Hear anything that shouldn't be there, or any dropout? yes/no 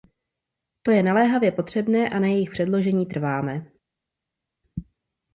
no